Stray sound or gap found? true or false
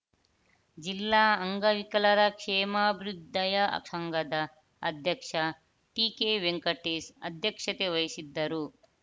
false